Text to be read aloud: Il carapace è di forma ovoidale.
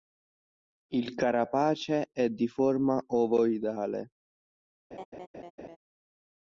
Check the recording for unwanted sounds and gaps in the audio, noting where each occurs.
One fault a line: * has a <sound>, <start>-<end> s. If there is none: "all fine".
* has a laugh, 4.9-5.8 s